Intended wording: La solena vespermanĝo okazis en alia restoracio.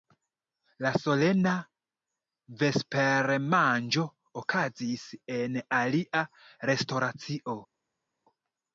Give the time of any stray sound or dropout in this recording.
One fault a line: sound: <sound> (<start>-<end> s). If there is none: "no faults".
no faults